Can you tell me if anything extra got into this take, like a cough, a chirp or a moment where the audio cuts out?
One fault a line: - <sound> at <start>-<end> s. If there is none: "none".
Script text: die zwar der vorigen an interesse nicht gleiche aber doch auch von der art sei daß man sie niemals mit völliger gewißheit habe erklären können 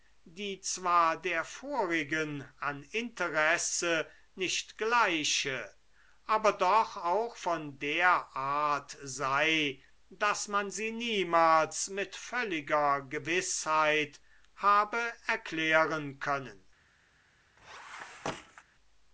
- squeak at 17.6-18.6 s